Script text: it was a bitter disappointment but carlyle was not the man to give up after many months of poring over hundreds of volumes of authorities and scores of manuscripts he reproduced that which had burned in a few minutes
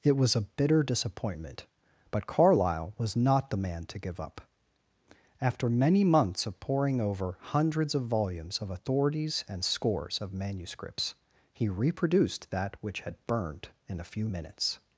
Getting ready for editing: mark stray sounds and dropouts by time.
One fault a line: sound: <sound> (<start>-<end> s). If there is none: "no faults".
no faults